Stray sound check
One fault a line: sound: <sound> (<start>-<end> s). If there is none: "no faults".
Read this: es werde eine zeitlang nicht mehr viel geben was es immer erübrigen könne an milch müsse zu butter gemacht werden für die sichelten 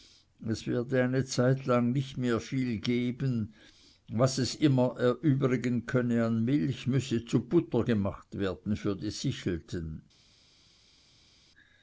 no faults